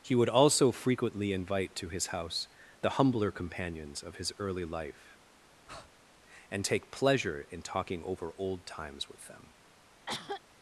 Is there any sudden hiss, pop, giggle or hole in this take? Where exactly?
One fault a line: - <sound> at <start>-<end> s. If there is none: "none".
- breath at 5.7-5.9 s
- cough at 10.1-10.4 s